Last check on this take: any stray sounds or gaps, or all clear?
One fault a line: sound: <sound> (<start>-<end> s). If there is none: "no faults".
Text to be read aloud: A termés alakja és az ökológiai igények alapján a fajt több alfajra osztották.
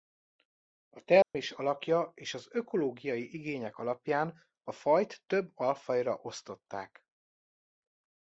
sound: dropout (1.2-1.3 s)